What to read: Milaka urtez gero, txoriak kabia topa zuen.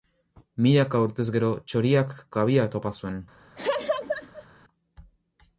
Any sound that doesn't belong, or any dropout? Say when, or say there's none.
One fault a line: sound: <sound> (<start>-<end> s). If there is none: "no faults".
sound: laugh (3.6-4.5 s)